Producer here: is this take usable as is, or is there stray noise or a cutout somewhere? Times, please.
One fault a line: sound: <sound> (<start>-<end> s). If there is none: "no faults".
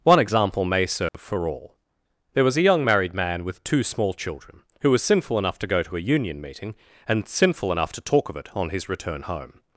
sound: dropout (1.1-1.1 s)